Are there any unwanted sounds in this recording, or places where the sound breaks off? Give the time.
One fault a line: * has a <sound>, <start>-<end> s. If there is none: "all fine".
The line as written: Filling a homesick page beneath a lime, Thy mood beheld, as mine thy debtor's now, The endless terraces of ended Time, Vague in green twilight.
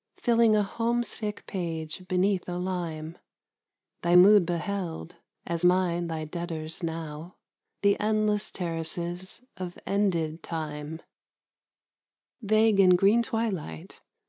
all fine